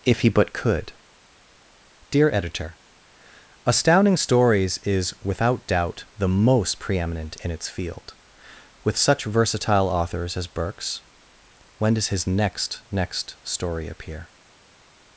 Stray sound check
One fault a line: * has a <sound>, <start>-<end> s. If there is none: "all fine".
all fine